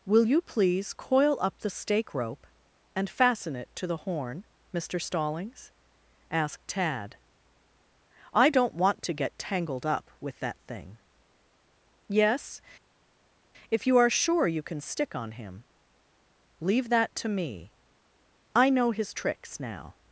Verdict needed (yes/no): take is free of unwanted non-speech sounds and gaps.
yes